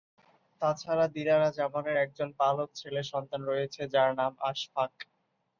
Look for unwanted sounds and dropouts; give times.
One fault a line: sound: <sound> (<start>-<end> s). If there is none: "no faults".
no faults